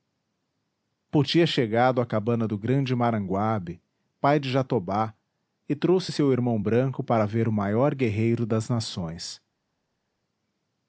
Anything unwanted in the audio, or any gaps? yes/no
no